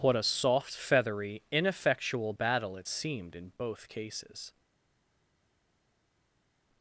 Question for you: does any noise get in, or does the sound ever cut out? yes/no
no